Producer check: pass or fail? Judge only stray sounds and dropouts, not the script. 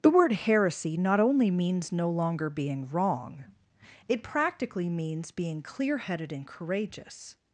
pass